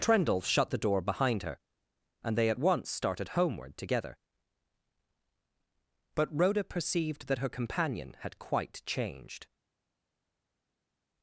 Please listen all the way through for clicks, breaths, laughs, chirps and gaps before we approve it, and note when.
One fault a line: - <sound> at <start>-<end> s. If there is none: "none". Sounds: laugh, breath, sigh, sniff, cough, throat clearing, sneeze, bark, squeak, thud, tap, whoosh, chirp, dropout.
none